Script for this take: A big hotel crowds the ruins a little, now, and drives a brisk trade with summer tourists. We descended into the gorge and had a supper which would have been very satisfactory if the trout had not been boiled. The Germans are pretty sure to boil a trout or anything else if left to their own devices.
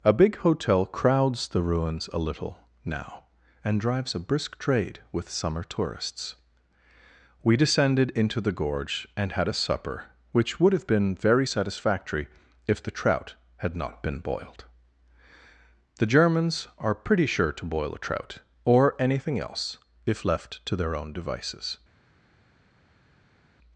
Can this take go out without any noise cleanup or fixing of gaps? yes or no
yes